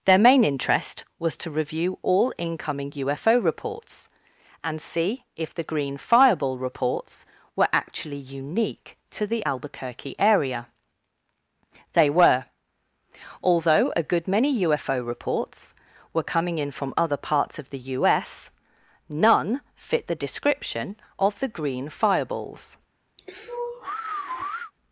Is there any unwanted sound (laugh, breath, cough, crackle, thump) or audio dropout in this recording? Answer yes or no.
yes